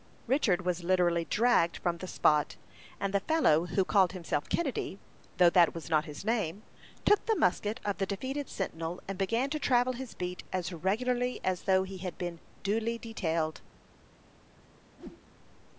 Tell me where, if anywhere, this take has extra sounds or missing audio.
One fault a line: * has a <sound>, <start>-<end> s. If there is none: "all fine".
* has a whoosh, 15.0-15.2 s